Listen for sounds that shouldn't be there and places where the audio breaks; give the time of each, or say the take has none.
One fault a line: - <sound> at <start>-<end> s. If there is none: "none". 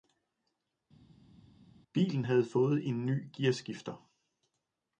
none